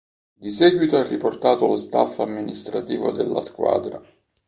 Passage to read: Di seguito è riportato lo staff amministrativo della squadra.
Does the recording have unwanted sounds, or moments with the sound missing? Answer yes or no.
no